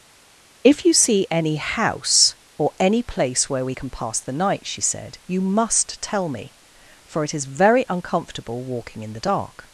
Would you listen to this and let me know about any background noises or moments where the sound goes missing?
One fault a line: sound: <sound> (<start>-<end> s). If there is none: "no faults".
no faults